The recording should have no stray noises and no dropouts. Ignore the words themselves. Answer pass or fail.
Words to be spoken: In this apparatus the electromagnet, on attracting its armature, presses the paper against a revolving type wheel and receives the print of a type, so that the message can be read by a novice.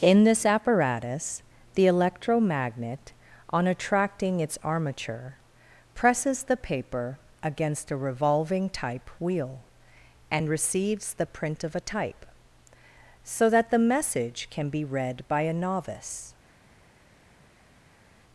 pass